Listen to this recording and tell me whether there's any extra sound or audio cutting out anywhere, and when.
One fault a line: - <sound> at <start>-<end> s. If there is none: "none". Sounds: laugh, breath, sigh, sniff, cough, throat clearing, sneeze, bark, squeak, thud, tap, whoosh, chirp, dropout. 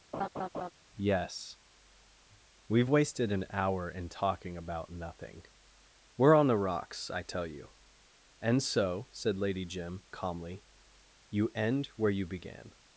- laugh at 0.1-0.7 s